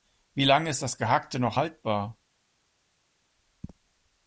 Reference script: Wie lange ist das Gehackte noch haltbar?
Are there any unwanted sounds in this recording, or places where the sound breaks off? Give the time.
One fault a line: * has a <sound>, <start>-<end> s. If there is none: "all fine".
all fine